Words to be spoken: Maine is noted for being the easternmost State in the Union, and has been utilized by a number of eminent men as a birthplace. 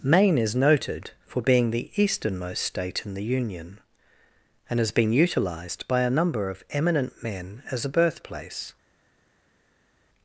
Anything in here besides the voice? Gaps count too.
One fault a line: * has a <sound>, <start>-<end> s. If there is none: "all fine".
all fine